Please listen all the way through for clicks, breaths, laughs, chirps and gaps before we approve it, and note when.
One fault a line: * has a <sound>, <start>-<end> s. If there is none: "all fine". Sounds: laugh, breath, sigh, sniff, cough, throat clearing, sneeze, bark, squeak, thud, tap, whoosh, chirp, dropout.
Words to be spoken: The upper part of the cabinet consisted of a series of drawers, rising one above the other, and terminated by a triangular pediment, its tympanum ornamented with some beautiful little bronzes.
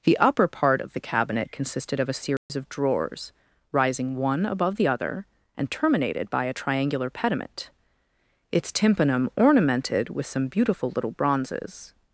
* has a dropout, 2.4-2.5 s